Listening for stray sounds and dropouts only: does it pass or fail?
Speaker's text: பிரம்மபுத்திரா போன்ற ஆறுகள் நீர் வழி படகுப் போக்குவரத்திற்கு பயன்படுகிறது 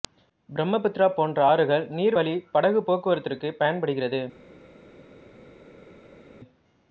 pass